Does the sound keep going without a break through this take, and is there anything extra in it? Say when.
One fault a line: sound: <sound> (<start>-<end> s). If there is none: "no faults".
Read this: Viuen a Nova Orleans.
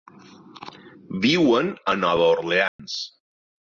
sound: dropout (2.7-2.8 s)